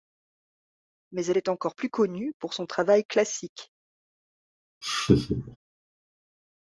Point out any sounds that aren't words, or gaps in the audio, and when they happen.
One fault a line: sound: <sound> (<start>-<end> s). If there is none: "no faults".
sound: laugh (4.8-5.6 s)